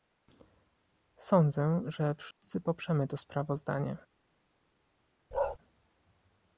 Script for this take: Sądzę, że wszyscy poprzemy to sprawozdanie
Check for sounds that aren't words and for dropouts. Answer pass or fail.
fail